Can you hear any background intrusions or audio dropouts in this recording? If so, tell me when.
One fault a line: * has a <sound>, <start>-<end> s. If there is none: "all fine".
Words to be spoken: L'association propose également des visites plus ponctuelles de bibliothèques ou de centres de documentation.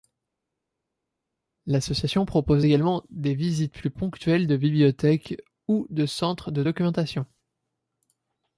all fine